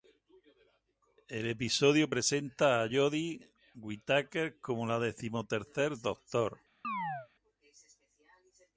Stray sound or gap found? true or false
true